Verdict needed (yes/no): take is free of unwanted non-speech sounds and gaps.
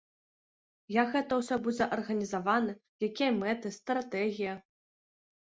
yes